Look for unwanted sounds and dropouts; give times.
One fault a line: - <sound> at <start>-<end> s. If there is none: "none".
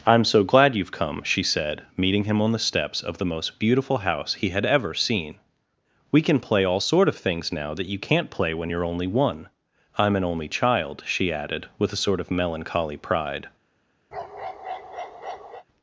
- bark at 14.1-15.6 s